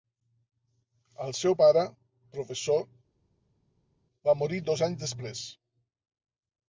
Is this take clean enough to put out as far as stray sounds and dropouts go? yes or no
yes